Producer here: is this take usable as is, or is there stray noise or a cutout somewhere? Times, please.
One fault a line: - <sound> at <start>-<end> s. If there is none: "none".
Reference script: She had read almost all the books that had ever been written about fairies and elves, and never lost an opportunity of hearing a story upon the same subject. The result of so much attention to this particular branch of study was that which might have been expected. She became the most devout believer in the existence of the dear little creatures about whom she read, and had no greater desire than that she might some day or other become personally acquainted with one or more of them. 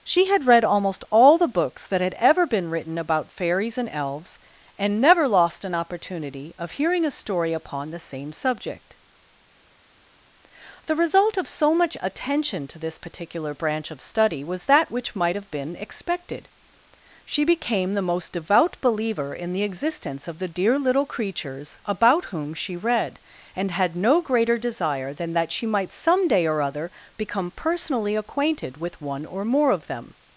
none